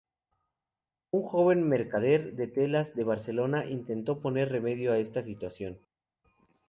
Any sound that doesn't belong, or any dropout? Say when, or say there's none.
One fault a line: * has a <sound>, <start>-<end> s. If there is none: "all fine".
all fine